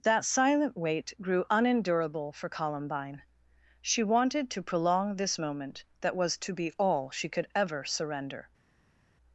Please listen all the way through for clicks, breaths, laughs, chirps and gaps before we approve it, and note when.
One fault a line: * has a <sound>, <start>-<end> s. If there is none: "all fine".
all fine